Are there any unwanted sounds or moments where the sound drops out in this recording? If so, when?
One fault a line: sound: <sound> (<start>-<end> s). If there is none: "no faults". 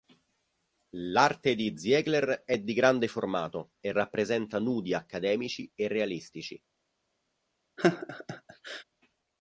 sound: laugh (7.8-8.8 s)